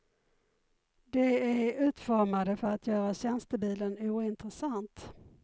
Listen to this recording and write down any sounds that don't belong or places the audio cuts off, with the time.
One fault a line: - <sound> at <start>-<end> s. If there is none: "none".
none